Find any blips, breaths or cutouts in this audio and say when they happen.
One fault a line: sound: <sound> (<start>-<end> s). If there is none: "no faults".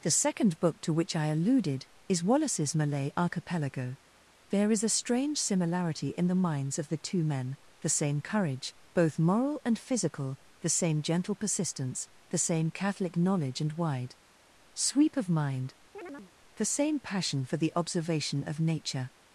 sound: chirp (15.9-16.3 s)